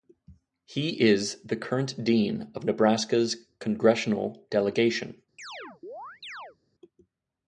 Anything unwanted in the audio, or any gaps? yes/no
yes